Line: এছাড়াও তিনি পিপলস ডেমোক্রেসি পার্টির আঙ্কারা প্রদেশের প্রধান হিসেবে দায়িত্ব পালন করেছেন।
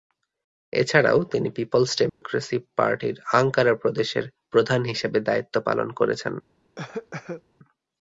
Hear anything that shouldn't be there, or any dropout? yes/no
yes